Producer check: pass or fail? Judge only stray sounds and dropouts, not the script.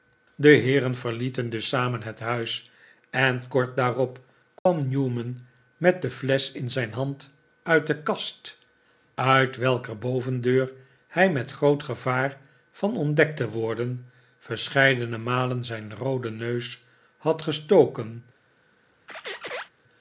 fail